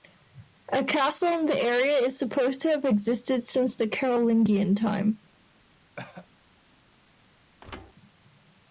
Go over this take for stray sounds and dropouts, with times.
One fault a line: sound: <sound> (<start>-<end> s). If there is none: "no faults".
sound: cough (6.0-6.3 s)
sound: thud (7.6-7.9 s)